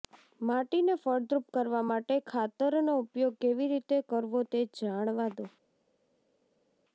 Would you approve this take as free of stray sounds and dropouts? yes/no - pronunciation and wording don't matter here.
yes